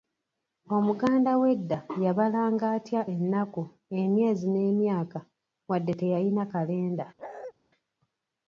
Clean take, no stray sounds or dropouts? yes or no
no